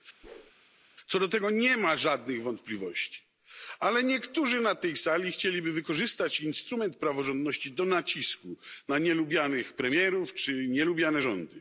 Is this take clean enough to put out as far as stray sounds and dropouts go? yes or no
no